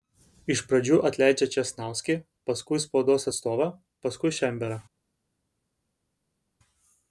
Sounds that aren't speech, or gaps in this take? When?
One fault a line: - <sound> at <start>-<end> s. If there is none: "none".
none